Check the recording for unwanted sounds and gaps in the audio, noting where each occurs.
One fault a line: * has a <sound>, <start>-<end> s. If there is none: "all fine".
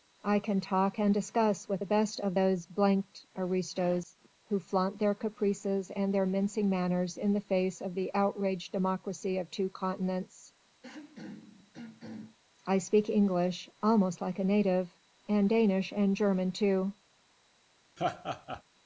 * has a throat clearing, 10.8-12.4 s
* has a laugh, 18.0-18.6 s